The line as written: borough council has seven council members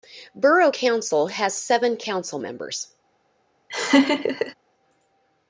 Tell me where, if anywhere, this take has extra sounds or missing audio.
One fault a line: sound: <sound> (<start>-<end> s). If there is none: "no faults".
sound: laugh (3.7-4.5 s)